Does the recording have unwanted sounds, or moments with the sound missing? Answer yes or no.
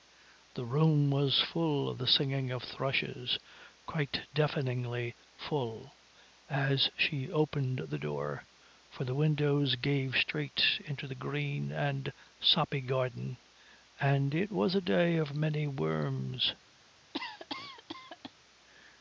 yes